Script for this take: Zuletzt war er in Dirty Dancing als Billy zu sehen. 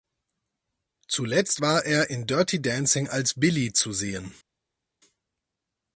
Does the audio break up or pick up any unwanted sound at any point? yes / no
no